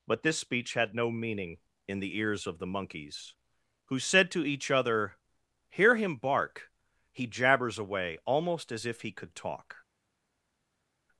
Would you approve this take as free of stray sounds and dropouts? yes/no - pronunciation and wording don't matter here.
yes